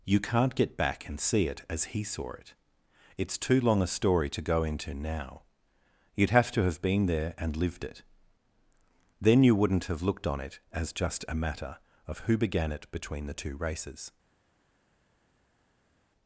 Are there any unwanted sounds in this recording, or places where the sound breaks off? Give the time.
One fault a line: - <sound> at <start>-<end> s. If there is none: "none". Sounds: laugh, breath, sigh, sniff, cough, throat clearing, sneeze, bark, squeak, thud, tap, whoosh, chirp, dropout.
none